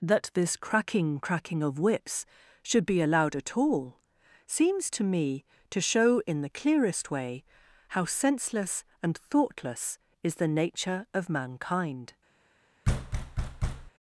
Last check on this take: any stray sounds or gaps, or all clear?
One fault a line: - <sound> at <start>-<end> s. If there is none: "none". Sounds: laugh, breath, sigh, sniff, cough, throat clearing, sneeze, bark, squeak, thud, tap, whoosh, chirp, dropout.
- thud at 12.8-13.9 s